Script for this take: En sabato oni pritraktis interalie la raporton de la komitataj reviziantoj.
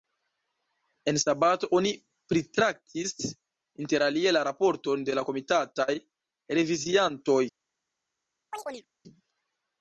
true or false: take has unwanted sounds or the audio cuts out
true